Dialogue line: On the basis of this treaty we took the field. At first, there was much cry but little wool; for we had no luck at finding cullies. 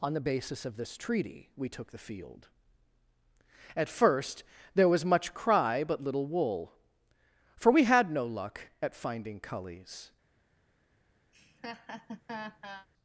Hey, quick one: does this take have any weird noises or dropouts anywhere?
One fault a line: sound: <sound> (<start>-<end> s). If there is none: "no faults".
sound: laugh (11.3-12.9 s)